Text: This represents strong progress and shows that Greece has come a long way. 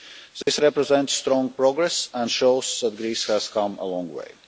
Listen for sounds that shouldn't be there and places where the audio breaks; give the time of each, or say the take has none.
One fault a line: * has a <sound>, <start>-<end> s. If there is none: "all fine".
* has a dropout, 0.4-0.5 s